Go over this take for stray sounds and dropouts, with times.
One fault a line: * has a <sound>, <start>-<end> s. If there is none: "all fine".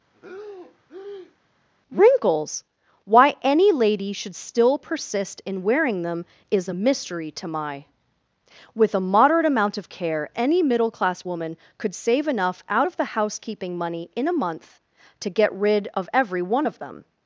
* has a breath, 0.1-1.4 s